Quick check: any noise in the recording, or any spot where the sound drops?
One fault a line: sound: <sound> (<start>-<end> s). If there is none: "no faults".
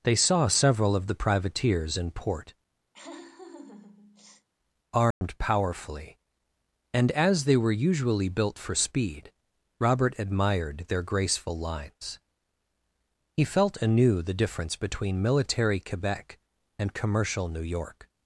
sound: laugh (2.9-4.5 s)
sound: dropout (5.1-5.2 s)